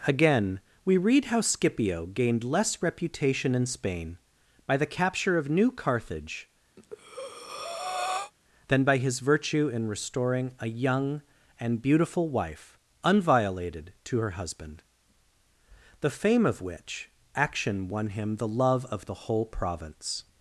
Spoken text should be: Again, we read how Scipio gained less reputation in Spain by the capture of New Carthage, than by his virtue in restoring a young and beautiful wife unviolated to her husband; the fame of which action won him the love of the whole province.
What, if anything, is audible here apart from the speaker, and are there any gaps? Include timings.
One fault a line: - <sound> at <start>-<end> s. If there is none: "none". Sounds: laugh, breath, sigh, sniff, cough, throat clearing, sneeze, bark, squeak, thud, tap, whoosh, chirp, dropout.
- breath at 6.8-8.3 s